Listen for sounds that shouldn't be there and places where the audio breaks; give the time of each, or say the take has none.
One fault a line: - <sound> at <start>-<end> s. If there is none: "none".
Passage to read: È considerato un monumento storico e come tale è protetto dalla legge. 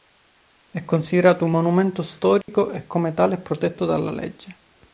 - dropout at 2.4-2.5 s